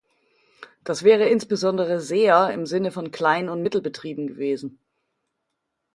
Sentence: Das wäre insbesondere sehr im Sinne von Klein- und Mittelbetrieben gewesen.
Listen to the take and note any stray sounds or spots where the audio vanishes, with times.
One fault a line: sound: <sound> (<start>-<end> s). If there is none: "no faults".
no faults